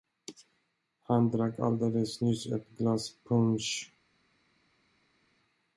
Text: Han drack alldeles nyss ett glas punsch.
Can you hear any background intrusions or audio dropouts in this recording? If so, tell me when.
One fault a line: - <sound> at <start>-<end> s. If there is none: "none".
none